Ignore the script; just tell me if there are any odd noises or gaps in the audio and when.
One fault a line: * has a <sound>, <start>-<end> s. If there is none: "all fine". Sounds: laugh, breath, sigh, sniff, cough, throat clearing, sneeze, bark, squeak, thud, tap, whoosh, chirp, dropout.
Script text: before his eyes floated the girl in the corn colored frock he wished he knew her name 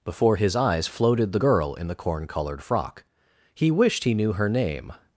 all fine